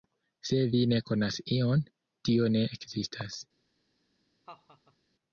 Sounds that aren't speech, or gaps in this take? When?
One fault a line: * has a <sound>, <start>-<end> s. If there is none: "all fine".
* has a laugh, 4.5-5.0 s